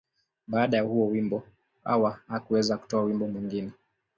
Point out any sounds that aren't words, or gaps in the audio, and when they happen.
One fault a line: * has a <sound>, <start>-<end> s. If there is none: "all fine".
all fine